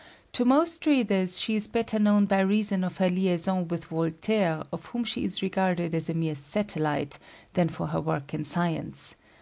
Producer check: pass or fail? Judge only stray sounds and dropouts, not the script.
pass